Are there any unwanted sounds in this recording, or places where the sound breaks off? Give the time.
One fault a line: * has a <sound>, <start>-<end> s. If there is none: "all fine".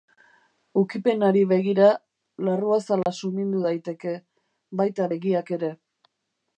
* has a dropout, 3.0-3.1 s